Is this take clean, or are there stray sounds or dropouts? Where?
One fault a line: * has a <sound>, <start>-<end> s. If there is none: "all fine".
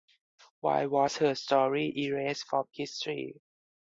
all fine